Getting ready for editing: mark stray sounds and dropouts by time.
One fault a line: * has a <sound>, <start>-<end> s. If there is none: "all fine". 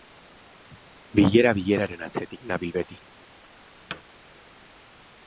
* has a thud, 3.9-4.0 s